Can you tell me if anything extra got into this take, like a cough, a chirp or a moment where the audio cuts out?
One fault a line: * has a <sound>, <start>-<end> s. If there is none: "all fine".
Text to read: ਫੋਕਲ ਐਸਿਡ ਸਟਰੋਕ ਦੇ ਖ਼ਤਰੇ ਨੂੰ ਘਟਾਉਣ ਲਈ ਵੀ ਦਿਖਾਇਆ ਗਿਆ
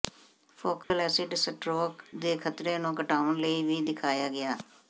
* has a dropout, 0.8-0.9 s